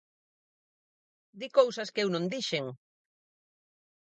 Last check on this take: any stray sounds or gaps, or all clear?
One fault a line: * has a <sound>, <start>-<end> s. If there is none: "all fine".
all fine